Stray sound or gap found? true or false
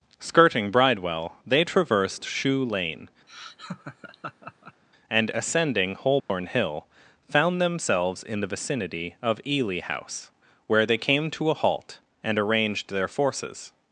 true